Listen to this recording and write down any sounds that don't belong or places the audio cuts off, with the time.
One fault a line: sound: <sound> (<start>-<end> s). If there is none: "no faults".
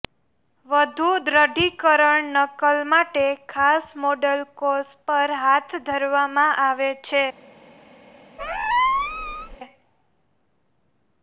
sound: squeak (8.4-9.6 s)